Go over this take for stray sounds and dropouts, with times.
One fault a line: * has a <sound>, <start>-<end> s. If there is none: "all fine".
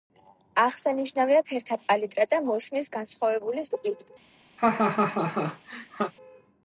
* has a laugh, 4.6-6.1 s